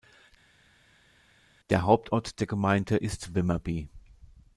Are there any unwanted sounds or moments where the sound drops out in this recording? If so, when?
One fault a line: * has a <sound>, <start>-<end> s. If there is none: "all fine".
all fine